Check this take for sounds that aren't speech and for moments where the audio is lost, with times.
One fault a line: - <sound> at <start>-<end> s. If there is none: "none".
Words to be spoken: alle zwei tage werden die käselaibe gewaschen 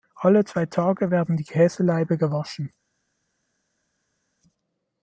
none